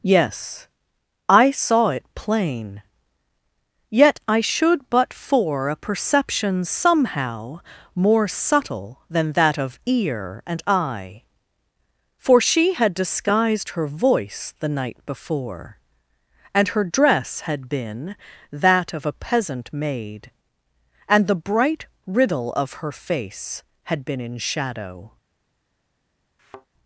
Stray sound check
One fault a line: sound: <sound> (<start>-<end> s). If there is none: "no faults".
sound: thud (26.4-26.7 s)